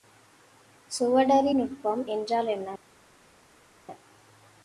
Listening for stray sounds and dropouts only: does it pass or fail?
pass